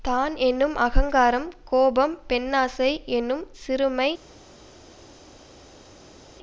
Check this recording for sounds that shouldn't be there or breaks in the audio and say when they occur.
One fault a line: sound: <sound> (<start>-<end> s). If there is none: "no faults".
no faults